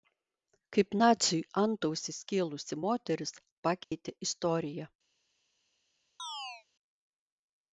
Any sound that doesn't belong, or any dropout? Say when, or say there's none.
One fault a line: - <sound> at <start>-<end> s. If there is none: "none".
- dropout at 3.8-3.9 s
- chirp at 6.2-6.7 s